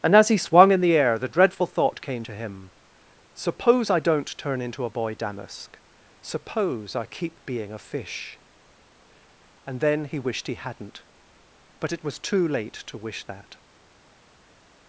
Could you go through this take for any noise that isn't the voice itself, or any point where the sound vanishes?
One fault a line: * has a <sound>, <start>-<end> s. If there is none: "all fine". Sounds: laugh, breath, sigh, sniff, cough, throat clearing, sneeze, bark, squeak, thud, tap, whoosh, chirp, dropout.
all fine